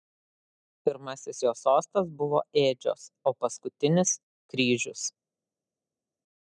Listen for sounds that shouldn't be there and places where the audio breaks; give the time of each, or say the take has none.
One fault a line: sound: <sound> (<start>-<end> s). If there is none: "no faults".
no faults